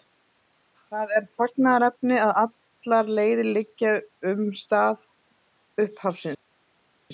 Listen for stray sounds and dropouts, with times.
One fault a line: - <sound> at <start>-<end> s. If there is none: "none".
none